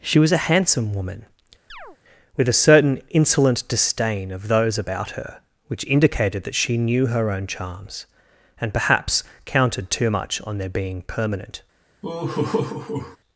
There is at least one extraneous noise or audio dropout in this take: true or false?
true